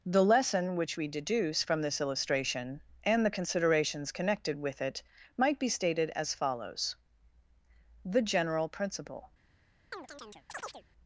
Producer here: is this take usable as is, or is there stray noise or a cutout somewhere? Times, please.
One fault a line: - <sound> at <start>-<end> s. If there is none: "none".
- chirp at 9.9-10.8 s